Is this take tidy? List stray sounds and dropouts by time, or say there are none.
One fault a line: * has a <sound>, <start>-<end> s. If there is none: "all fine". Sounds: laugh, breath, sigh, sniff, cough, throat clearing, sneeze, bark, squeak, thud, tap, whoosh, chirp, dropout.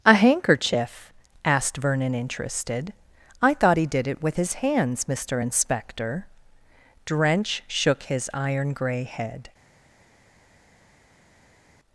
all fine